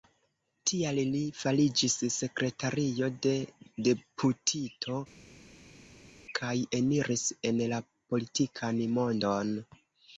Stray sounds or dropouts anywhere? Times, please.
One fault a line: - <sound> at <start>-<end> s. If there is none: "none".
none